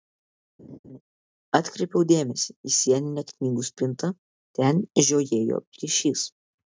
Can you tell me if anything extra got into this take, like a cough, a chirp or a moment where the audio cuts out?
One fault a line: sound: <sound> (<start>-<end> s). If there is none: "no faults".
sound: laugh (0.6-1.0 s)